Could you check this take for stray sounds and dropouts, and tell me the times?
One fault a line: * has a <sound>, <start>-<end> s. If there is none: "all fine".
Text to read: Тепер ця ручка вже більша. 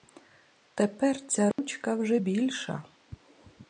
* has a dropout, 1.5-1.6 s